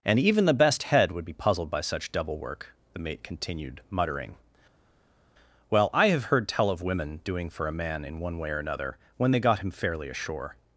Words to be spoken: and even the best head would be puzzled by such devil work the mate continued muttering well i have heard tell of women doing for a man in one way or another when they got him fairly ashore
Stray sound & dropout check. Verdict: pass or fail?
pass